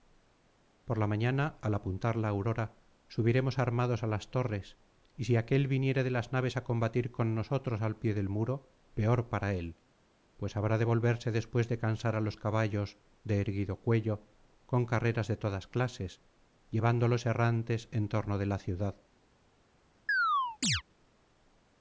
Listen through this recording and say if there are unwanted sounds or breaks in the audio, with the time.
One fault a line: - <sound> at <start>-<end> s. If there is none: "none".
- chirp at 20.1-20.8 s